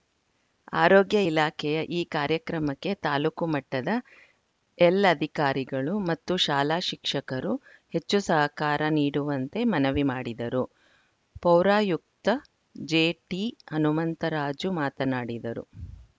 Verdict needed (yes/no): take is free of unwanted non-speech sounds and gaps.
yes